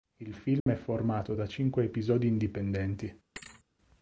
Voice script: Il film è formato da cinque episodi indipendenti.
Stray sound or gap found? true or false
true